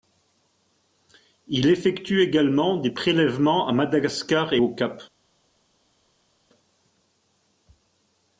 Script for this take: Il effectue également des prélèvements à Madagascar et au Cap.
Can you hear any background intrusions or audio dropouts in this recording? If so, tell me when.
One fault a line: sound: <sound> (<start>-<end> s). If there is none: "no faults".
no faults